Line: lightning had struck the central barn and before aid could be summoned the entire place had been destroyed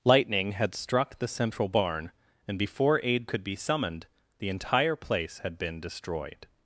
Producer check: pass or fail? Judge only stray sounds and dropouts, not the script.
pass